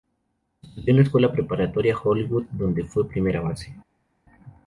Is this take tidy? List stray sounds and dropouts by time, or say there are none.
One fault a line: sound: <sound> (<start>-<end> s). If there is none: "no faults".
no faults